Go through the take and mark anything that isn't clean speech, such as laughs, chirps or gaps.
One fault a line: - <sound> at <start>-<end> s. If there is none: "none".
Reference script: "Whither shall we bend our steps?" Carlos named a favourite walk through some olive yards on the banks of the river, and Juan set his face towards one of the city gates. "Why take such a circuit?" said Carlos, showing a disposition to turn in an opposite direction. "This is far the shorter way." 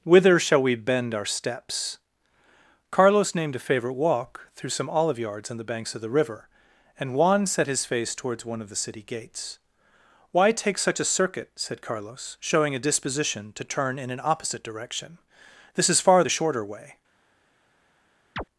- chirp at 18.4-18.4 s